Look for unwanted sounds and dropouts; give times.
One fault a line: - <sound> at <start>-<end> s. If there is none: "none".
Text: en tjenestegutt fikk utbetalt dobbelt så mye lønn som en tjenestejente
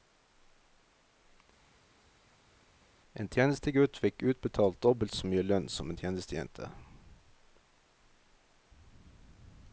none